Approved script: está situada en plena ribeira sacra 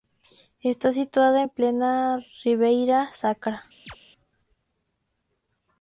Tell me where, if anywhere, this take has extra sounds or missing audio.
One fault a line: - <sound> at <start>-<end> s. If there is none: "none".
- chirp at 3.9-4.0 s